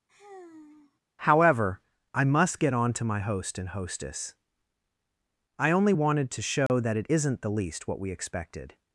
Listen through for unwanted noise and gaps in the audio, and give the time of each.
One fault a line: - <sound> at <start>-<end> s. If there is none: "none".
- sigh at 0.1-1.0 s
- dropout at 6.7-6.7 s